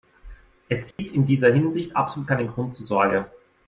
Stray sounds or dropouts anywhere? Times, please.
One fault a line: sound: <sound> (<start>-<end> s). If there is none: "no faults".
sound: dropout (0.9-1.0 s)